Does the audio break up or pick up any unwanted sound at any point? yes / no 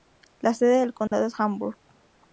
yes